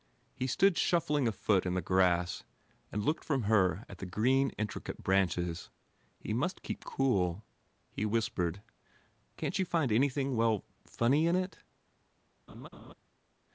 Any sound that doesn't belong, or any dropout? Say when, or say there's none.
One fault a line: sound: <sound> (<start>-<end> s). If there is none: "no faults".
sound: laugh (12.5-12.9 s)